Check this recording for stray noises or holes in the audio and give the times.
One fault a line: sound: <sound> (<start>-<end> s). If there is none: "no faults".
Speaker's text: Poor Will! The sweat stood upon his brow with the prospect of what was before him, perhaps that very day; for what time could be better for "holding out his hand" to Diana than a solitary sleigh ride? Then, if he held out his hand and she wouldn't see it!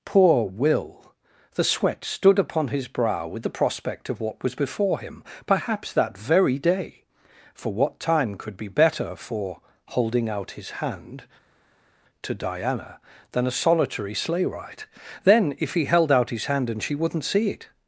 no faults